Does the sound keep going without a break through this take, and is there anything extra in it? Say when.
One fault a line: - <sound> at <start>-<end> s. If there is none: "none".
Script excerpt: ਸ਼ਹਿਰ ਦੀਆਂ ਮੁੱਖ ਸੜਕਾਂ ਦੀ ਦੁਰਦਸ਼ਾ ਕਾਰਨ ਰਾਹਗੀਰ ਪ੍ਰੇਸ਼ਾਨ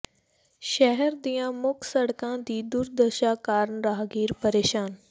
none